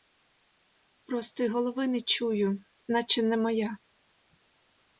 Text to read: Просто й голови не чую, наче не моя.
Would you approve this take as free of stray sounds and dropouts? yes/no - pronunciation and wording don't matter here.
yes